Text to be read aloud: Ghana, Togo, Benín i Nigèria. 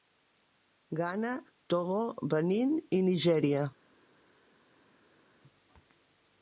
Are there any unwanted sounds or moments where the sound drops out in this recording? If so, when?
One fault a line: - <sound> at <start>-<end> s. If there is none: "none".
none